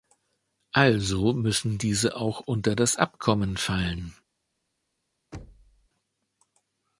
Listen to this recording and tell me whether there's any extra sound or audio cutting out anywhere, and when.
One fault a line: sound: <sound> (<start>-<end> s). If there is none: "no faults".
sound: thud (5.3-5.9 s)